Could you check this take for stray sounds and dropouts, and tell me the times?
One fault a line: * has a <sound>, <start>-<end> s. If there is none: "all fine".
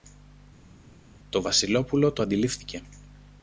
all fine